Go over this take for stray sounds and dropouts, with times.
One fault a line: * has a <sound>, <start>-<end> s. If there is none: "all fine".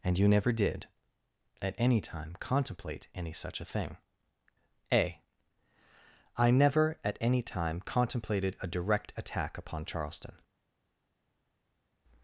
all fine